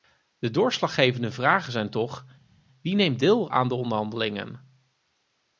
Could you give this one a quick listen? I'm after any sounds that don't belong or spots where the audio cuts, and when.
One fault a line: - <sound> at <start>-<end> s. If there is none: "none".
none